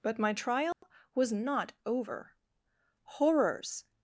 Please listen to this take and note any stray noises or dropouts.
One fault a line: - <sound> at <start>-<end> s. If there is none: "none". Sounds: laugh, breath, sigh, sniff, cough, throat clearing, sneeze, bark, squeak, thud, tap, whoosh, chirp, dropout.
- dropout at 0.7-0.8 s